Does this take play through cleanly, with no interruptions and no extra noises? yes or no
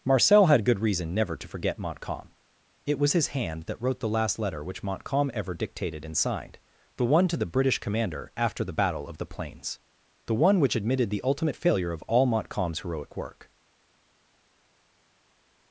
yes